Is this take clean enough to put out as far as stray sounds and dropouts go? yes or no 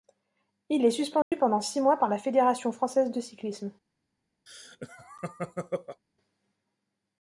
no